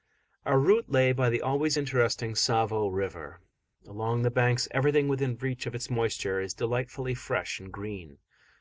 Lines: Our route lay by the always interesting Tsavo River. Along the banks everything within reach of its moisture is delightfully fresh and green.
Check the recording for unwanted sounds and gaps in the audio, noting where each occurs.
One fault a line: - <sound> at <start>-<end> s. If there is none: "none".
none